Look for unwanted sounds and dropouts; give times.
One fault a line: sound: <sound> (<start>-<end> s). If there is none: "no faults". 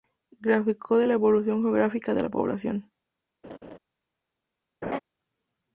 sound: laugh (3.4-3.8 s)
sound: laugh (4.8-5.0 s)